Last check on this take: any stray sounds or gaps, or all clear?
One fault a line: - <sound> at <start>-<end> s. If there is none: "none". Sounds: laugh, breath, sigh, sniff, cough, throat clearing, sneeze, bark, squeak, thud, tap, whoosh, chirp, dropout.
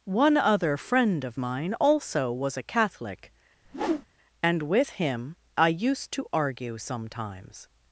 - whoosh at 3.6-4.1 s